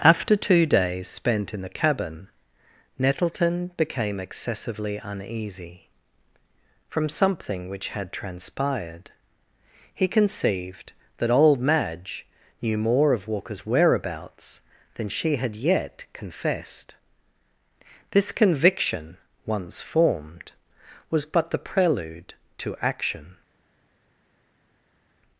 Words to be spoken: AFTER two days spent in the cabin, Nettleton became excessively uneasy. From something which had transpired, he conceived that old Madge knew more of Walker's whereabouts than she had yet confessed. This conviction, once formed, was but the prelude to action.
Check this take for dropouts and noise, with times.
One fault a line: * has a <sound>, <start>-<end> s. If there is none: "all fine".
all fine